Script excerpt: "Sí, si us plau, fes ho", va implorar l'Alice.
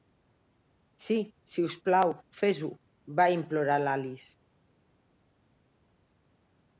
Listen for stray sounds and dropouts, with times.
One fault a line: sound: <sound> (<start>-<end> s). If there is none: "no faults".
no faults